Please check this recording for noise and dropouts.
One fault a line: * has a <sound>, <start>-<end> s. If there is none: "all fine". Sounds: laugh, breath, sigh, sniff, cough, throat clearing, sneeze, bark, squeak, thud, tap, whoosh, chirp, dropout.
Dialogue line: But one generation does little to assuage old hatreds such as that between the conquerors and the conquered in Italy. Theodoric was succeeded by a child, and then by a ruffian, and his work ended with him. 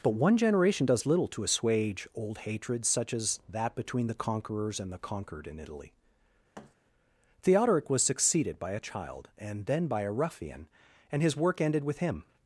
* has a thud, 6.5-6.7 s